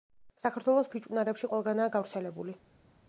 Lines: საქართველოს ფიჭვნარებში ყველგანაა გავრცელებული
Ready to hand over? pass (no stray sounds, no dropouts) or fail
pass